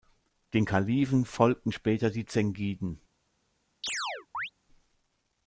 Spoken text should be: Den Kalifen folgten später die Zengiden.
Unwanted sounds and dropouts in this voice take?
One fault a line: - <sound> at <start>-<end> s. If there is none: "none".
- chirp at 3.8-4.5 s